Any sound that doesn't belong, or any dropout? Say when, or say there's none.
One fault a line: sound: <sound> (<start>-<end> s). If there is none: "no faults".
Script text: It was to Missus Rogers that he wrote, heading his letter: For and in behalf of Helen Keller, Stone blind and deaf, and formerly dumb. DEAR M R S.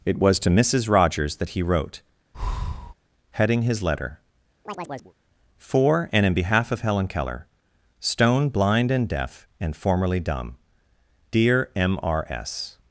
sound: breath (2.3-2.9 s)
sound: chirp (4.7-5.1 s)